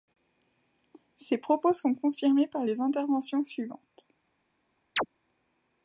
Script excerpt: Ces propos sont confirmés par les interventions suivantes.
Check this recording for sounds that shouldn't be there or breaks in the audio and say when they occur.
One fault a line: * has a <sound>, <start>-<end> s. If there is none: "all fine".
* has a chirp, 5.0-5.1 s